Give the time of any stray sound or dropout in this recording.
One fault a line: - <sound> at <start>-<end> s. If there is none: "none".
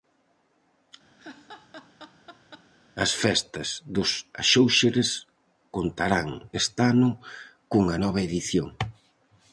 - laugh at 1.2-2.7 s